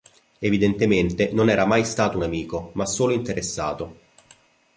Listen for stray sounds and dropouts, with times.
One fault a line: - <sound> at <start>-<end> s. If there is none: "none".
none